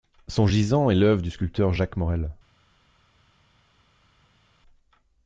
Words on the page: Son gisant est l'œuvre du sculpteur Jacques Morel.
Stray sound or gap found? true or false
false